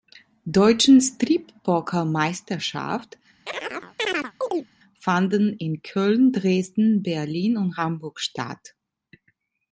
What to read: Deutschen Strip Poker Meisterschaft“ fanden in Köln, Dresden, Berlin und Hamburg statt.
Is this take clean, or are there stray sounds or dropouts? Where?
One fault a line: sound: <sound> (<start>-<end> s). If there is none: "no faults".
sound: chirp (3.5-4.7 s)